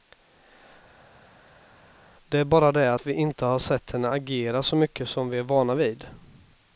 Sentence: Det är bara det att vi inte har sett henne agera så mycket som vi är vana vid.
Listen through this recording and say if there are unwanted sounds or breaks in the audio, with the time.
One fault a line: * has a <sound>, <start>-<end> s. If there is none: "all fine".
all fine